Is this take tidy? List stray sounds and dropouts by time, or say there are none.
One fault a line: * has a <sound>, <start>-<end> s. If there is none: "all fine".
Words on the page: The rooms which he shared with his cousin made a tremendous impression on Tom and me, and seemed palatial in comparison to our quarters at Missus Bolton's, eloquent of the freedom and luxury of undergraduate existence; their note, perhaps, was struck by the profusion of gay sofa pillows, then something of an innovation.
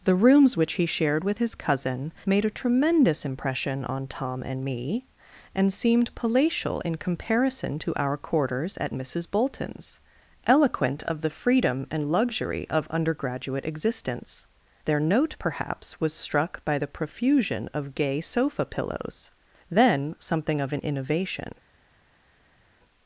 all fine